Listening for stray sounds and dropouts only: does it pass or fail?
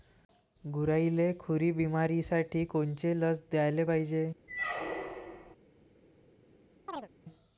fail